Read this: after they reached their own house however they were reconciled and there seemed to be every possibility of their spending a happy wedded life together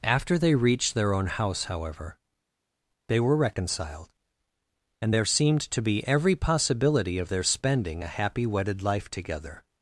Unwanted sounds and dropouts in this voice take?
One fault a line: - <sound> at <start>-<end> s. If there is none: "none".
none